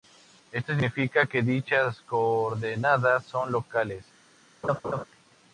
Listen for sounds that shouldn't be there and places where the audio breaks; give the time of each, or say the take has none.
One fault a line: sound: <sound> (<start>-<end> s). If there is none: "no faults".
sound: laugh (4.6-5.0 s)